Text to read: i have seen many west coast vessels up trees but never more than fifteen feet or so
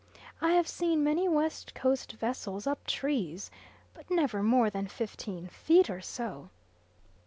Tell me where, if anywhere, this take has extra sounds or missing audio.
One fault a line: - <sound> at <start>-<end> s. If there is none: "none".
none